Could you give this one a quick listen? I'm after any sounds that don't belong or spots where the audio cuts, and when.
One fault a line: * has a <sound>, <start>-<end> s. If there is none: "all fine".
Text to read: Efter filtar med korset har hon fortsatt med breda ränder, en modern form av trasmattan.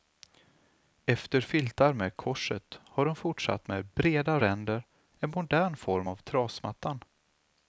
all fine